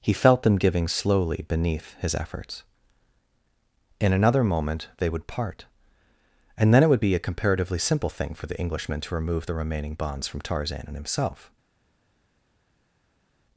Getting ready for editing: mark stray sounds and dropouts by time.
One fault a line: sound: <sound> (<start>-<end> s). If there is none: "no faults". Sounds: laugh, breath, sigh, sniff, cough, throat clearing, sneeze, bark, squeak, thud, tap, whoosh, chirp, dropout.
no faults